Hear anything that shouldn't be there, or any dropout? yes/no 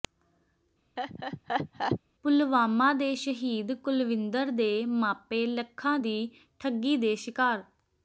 yes